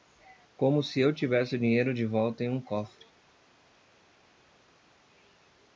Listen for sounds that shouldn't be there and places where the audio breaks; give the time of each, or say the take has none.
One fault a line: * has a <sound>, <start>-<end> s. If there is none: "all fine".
all fine